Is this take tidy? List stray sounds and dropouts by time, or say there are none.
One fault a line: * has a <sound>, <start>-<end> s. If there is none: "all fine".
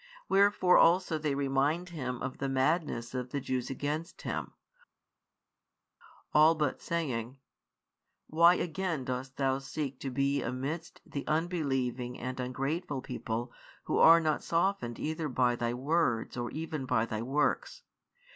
all fine